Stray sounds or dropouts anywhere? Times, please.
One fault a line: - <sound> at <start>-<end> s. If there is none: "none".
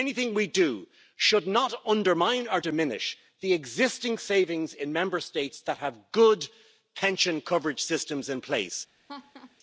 - laugh at 9.1-9.6 s